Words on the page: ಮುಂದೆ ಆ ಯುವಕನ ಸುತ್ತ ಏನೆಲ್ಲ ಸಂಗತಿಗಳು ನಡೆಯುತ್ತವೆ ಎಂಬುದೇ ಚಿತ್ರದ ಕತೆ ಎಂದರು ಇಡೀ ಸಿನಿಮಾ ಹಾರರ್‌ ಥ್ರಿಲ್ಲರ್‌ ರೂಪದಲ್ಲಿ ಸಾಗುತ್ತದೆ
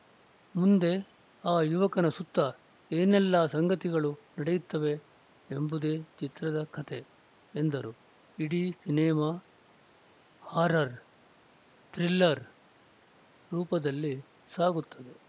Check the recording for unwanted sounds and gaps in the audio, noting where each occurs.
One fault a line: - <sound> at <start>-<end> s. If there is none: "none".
none